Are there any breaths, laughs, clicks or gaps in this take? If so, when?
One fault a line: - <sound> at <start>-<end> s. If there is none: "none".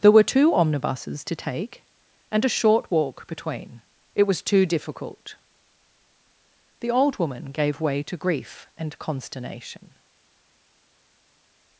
none